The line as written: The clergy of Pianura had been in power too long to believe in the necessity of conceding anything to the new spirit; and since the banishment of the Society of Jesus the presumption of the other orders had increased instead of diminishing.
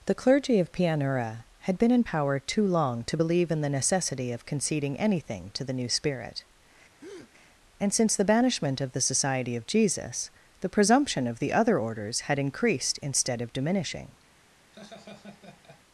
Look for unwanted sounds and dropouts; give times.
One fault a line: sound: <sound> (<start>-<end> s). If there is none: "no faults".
sound: breath (7.0-7.3 s)
sound: laugh (14.7-15.8 s)